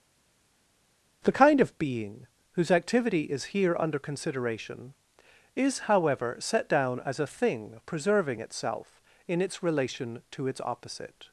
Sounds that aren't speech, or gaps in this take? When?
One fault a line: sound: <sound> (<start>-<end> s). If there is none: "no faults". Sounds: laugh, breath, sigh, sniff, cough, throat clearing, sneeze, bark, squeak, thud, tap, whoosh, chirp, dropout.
no faults